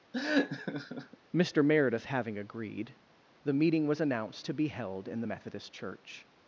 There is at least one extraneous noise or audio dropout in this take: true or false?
true